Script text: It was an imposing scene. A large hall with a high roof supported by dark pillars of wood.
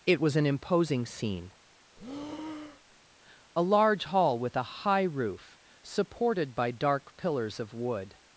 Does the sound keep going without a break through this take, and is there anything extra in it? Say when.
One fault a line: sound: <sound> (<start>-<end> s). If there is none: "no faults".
sound: breath (2.0-3.0 s)